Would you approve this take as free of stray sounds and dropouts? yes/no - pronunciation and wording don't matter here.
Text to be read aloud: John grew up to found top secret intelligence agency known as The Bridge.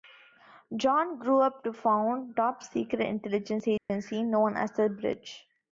no